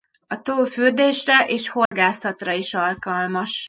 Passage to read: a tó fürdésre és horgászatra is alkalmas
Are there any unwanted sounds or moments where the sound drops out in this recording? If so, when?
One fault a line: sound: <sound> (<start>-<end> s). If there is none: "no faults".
sound: dropout (1.9-1.9 s)